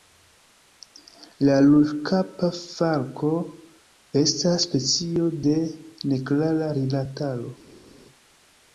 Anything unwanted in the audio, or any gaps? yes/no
no